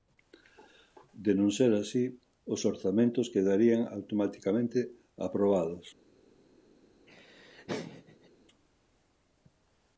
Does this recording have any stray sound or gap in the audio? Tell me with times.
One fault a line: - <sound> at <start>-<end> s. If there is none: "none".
- laugh at 7.1-8.3 s